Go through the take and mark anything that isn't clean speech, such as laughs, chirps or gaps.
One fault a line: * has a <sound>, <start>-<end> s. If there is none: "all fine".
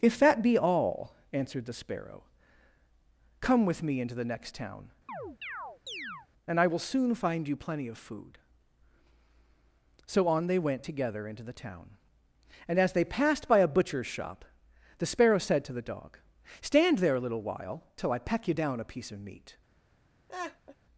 * has a chirp, 5.1-6.3 s
* has a laugh, 20.3-20.8 s